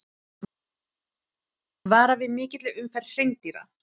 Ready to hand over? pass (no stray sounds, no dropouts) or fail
pass